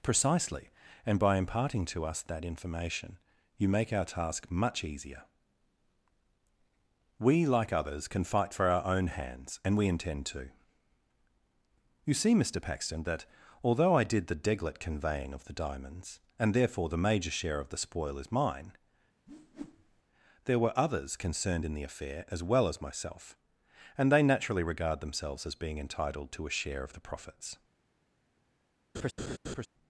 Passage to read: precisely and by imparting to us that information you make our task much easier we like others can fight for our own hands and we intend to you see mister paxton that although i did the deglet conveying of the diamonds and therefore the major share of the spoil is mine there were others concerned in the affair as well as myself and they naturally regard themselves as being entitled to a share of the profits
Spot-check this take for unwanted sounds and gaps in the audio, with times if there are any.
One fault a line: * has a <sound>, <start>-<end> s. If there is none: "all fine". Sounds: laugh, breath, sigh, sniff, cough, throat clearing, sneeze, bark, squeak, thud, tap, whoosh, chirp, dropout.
* has a whoosh, 19.3-20.0 s
* has a laugh, 28.9-29.7 s